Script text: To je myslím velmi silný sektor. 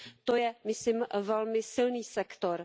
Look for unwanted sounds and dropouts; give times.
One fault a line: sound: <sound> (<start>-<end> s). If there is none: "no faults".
no faults